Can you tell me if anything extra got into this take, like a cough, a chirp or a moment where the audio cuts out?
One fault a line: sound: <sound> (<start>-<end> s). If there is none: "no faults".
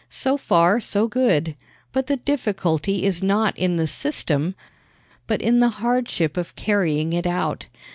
no faults